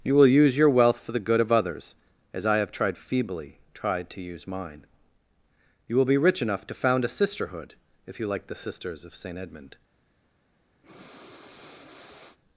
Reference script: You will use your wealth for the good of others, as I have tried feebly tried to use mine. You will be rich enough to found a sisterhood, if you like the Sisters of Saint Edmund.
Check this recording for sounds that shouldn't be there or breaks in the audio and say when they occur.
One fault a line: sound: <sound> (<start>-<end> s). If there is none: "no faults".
sound: breath (10.8-12.4 s)